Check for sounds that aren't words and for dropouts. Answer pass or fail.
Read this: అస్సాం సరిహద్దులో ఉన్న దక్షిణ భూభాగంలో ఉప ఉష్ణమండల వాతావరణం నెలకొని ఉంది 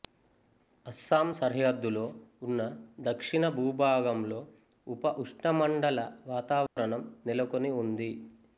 fail